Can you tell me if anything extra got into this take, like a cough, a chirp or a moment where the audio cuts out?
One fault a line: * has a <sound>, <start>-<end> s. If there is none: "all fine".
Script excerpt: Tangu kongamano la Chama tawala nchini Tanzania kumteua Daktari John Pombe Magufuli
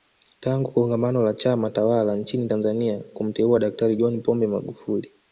all fine